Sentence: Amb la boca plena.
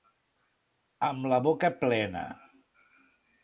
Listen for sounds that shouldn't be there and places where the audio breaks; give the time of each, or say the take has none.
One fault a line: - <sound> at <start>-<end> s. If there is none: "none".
none